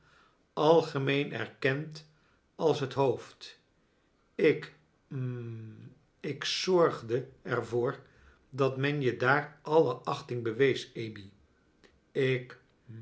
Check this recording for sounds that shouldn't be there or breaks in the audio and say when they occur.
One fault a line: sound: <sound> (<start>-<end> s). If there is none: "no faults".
no faults